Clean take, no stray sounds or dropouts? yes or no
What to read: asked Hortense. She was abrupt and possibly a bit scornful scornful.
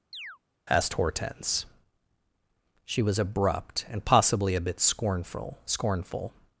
no